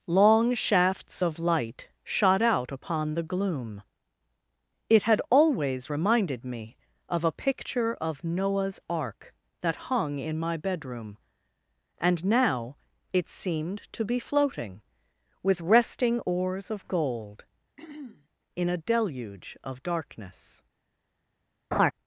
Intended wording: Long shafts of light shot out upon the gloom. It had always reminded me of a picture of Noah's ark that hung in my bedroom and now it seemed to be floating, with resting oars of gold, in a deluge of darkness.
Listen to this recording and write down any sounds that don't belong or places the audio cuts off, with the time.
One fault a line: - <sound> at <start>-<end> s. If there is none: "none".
- throat clearing at 17.8-18.3 s
- laugh at 21.7-21.9 s